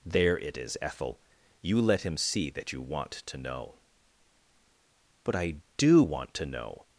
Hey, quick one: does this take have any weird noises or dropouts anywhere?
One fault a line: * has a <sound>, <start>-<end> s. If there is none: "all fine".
all fine